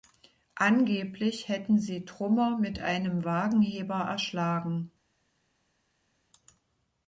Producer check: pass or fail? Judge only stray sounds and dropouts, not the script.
pass